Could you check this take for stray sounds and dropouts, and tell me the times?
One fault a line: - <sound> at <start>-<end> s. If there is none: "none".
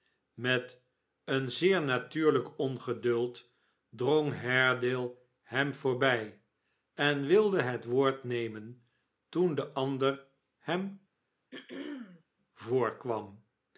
- throat clearing at 11.5-12.2 s